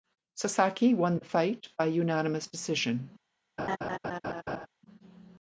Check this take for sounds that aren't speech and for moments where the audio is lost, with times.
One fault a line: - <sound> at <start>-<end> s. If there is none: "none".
- laugh at 3.6-4.7 s